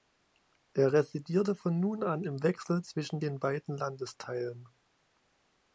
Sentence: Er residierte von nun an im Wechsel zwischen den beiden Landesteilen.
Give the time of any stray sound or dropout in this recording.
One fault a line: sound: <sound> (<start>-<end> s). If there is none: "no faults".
no faults